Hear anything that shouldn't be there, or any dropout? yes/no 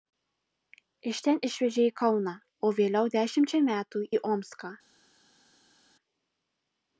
no